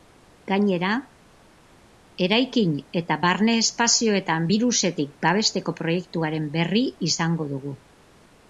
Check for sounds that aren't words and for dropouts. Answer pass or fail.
pass